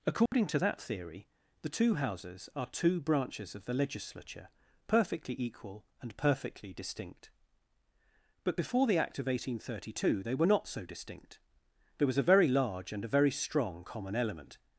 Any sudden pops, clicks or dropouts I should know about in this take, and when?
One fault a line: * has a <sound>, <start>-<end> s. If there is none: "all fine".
* has a dropout, 0.3-0.3 s